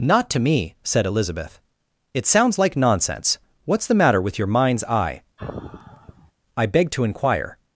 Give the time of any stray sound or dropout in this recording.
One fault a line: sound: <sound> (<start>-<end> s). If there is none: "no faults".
sound: sigh (5.4-6.3 s)